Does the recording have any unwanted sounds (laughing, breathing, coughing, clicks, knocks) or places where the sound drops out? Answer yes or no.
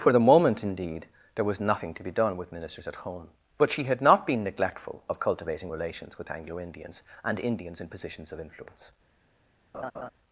yes